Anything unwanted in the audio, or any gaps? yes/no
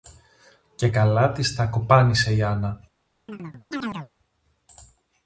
yes